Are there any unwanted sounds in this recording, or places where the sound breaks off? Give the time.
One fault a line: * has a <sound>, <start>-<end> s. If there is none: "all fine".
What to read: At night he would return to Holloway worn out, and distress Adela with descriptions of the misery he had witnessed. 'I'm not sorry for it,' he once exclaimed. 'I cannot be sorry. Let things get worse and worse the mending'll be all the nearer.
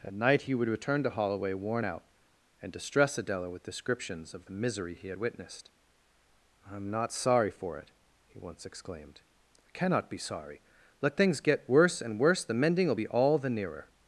all fine